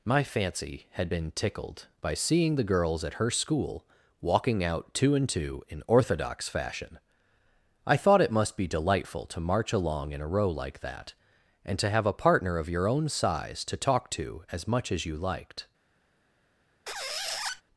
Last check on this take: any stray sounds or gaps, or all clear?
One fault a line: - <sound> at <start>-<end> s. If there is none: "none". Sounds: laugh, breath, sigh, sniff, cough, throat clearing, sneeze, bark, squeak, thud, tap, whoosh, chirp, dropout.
- squeak at 16.9-17.6 s